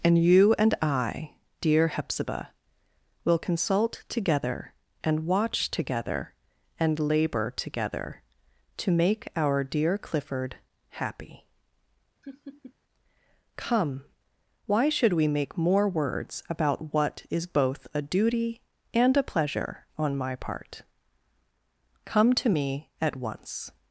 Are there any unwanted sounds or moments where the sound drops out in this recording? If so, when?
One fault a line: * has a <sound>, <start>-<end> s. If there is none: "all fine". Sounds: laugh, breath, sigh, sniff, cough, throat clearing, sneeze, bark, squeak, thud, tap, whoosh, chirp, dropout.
* has a laugh, 12.2-12.7 s